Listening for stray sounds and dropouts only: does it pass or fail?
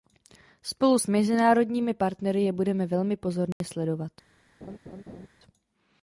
fail